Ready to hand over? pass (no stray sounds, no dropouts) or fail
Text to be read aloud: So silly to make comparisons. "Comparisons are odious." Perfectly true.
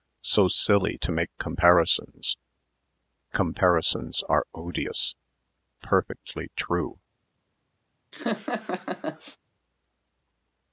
fail